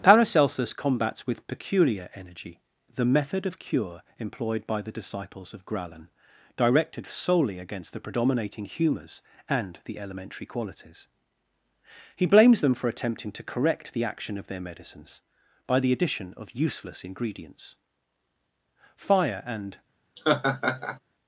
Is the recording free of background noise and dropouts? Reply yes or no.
no